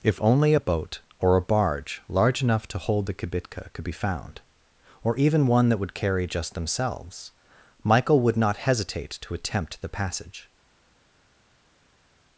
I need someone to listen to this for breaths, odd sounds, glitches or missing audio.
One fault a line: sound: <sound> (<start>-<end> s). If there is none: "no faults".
no faults